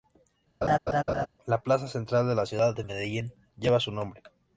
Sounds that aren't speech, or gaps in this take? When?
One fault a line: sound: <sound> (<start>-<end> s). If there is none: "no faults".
sound: laugh (0.6-1.3 s)